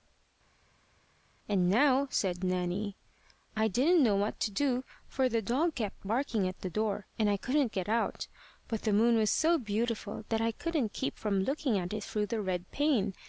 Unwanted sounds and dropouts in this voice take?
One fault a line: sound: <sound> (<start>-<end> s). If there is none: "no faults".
no faults